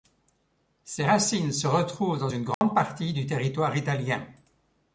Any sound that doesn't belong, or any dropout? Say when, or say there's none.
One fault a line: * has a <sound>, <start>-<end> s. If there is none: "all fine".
* has a dropout, 2.5-2.6 s